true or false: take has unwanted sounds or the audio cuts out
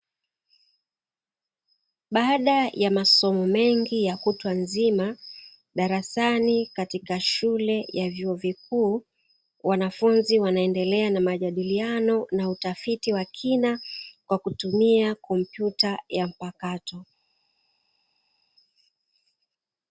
false